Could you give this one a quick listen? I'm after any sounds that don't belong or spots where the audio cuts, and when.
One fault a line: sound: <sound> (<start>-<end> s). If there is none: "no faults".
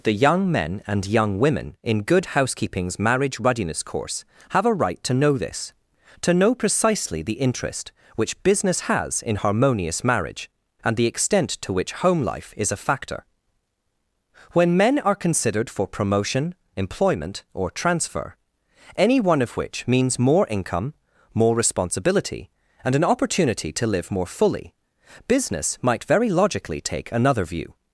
no faults